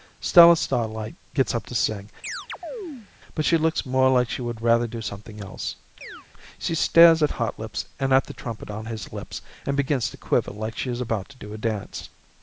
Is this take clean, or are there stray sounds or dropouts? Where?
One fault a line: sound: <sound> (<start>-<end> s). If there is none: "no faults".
sound: chirp (2.2-3.1 s)
sound: chirp (6.0-6.3 s)